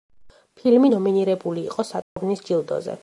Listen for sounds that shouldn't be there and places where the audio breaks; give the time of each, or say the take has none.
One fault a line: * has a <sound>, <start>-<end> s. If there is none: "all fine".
* has a dropout, 2.0-2.2 s